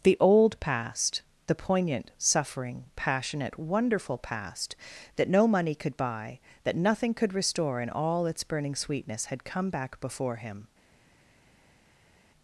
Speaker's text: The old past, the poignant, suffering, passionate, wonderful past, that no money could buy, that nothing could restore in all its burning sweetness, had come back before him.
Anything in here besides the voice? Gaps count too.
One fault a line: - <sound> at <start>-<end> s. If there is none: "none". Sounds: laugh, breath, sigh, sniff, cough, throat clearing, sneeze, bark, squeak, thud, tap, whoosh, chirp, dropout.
none